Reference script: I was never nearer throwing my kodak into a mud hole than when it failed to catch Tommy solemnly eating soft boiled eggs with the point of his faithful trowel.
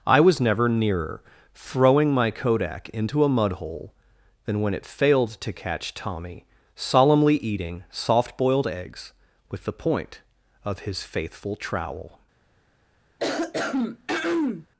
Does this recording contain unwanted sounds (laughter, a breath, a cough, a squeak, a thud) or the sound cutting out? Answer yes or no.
yes